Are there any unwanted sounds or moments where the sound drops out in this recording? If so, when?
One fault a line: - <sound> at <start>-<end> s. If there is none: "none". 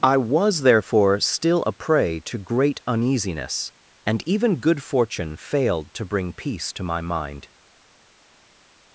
none